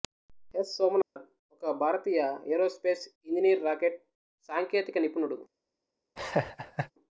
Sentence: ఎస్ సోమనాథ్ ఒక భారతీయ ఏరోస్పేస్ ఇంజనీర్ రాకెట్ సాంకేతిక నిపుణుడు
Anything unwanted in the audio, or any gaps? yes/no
yes